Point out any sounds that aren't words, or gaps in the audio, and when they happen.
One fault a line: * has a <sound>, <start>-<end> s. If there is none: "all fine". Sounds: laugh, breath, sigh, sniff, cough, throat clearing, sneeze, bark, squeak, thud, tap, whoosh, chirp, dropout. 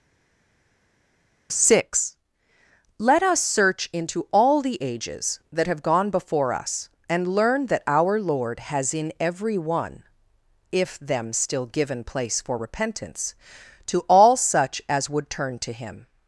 all fine